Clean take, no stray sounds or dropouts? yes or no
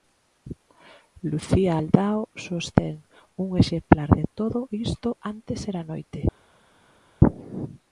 yes